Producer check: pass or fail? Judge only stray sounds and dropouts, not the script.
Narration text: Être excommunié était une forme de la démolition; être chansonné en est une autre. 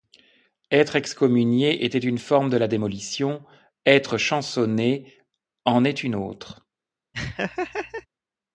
fail